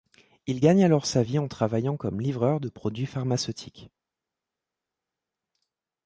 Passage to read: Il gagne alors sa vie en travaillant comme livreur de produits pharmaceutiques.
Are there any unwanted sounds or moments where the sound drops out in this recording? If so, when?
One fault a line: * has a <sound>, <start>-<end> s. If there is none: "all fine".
all fine